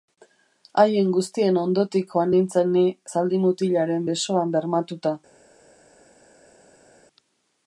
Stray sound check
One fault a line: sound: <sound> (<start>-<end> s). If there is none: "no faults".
no faults